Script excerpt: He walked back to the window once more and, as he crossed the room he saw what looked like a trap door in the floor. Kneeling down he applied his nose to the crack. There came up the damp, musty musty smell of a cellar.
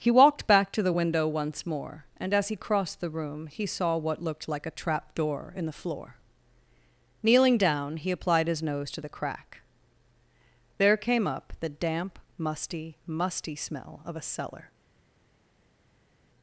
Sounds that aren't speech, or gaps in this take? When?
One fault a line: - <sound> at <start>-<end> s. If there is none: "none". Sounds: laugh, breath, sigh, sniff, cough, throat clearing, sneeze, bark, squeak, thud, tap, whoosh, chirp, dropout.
none